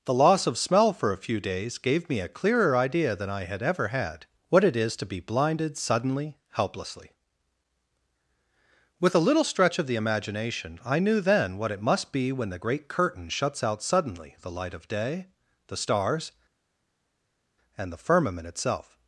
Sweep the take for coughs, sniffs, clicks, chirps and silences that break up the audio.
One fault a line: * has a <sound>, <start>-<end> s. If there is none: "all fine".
all fine